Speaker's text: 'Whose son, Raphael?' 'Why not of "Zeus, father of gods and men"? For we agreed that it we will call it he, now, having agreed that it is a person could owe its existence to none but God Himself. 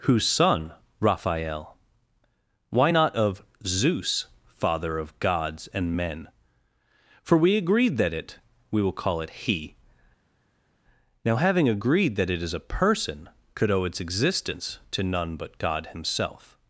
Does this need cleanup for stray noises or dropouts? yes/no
no